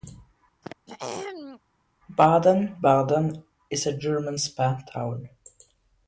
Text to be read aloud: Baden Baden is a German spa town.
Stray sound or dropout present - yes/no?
yes